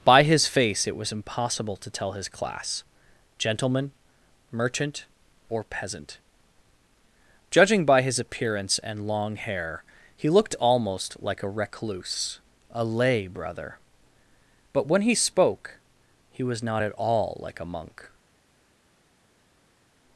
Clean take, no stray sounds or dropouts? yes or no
yes